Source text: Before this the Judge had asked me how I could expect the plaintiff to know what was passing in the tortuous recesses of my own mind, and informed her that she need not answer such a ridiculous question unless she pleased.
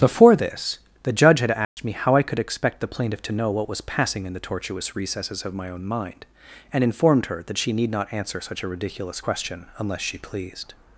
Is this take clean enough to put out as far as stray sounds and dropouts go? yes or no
no